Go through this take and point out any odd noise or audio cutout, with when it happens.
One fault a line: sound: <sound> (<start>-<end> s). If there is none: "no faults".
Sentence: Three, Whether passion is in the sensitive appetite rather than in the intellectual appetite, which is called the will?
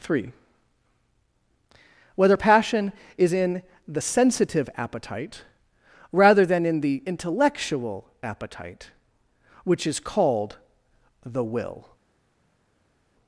no faults